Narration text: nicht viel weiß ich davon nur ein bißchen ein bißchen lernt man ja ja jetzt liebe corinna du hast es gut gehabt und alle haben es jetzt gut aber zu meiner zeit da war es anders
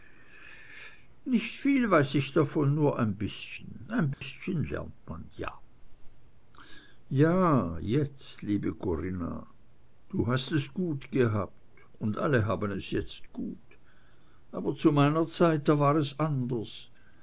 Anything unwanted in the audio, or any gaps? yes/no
yes